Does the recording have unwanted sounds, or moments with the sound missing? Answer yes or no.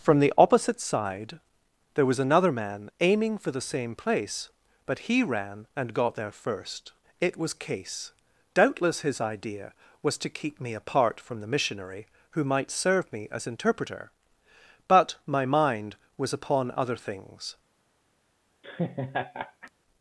yes